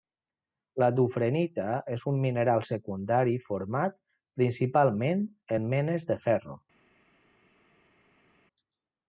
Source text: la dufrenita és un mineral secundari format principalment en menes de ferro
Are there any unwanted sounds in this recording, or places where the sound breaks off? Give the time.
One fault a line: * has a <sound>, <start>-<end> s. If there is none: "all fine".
all fine